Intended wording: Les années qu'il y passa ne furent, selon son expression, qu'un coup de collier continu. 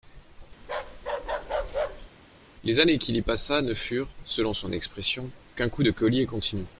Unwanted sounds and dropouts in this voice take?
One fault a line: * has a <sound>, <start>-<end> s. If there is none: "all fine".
* has a bark, 0.6-2.1 s